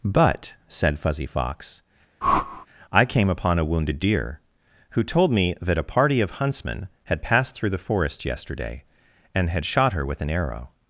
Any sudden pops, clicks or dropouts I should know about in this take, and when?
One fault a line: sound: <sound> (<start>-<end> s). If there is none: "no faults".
sound: whoosh (2.2-2.7 s)